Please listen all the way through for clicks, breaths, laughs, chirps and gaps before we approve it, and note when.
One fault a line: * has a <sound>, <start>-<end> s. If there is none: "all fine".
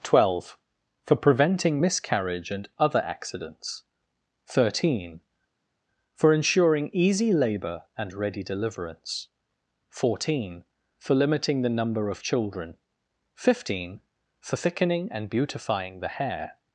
all fine